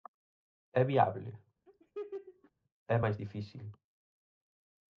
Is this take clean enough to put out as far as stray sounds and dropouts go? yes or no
no